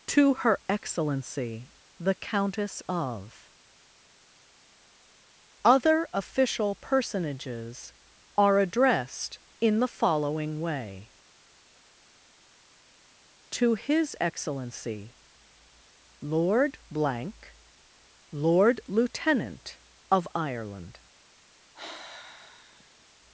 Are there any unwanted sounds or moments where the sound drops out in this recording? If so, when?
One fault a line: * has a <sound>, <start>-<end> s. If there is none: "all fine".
* has a sigh, 21.7-23.1 s